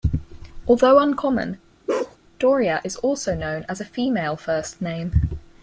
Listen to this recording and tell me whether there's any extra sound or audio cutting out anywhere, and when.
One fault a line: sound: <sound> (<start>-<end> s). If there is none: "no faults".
sound: bark (1.9-2.2 s)